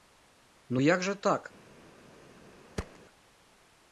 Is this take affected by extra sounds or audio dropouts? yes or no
yes